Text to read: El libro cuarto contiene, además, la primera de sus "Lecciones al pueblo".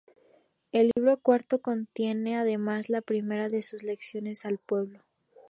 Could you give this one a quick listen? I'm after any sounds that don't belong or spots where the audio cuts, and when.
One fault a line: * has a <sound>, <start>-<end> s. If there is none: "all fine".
* has a dropout, 0.9-1.0 s